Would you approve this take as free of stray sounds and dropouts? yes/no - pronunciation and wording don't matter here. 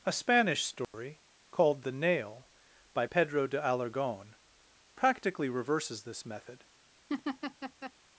no